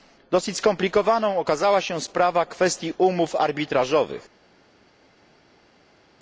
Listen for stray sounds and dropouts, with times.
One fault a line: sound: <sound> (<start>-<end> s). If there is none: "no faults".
no faults